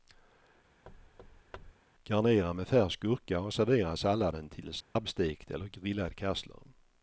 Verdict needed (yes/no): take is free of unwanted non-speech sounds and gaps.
no